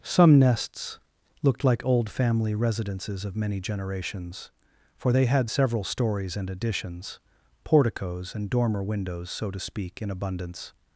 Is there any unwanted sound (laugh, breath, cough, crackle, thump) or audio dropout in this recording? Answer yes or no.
no